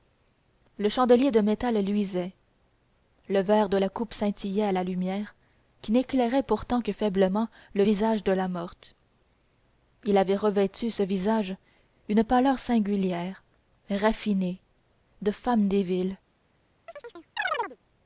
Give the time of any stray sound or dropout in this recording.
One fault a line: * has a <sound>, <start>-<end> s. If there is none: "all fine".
* has a chirp, 16.9-17.8 s